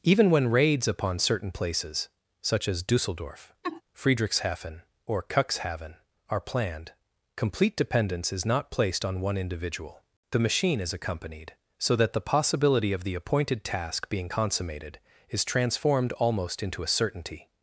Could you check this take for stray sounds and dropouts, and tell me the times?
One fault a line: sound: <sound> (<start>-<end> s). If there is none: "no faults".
sound: laugh (3.6-3.8 s)